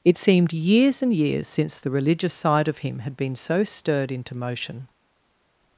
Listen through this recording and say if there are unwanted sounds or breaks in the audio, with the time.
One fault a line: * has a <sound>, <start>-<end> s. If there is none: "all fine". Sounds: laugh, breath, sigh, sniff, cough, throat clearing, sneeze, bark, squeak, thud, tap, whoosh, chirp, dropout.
all fine